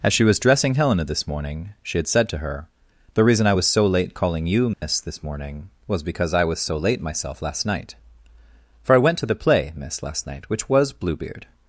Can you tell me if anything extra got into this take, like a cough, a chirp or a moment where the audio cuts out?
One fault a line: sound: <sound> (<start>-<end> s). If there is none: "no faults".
sound: dropout (4.7-4.8 s)